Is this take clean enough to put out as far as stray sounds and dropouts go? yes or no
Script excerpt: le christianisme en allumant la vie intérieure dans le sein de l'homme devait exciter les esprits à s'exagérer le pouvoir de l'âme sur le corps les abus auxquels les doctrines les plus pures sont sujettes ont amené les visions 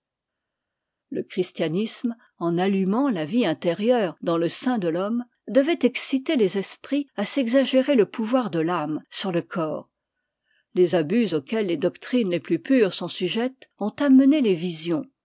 yes